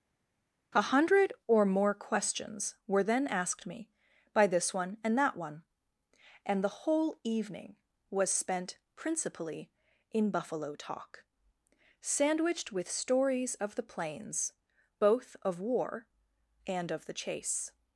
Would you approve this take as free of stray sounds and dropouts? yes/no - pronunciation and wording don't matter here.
yes